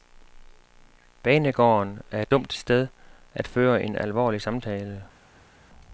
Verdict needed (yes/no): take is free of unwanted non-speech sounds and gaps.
yes